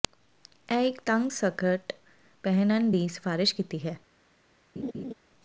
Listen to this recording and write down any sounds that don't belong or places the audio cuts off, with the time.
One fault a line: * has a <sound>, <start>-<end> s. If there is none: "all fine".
* has a laugh, 4.8-5.1 s